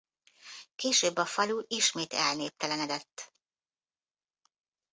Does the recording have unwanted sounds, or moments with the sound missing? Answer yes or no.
no